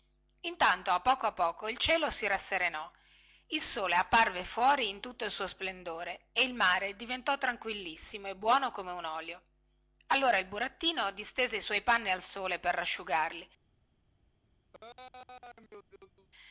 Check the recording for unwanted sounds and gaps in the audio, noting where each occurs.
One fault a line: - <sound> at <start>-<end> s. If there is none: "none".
- laugh at 14.7-16.3 s